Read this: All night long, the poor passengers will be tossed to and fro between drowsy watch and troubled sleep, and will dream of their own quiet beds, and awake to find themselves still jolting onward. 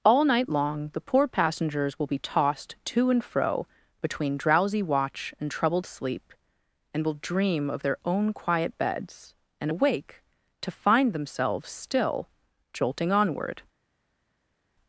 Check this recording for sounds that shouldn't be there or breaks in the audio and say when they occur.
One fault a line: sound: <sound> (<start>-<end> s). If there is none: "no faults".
no faults